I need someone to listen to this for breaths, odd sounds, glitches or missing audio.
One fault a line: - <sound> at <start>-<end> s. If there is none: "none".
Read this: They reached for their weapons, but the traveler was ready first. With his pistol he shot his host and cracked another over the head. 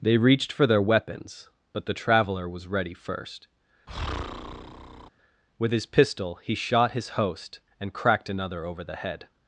- breath at 3.9-5.1 s